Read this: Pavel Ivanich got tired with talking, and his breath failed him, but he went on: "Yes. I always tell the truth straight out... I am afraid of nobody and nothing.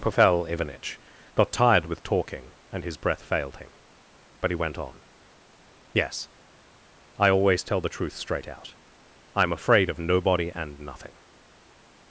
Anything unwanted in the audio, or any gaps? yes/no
no